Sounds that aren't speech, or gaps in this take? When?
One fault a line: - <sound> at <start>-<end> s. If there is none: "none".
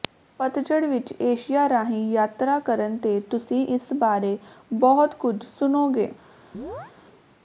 - chirp at 6.5-6.9 s